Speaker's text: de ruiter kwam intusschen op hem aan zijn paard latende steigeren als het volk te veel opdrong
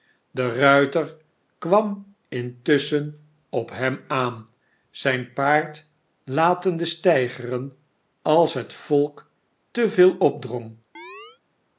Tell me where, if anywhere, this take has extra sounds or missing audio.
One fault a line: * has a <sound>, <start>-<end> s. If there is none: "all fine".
* has a chirp, 10.9-11.4 s